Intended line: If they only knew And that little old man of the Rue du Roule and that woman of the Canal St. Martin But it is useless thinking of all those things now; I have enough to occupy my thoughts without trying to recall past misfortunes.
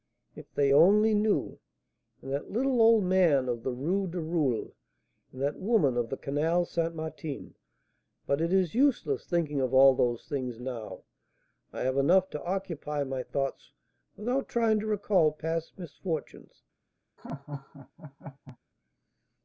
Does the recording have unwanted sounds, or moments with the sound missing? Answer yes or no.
yes